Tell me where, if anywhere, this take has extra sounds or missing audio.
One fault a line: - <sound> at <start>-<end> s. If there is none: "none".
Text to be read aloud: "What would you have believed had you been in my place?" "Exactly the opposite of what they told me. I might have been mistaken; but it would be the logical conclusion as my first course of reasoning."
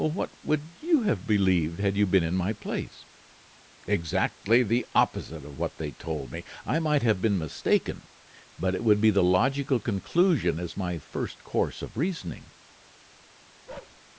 - bark at 13.7-14.0 s